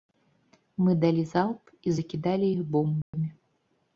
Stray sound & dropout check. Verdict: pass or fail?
fail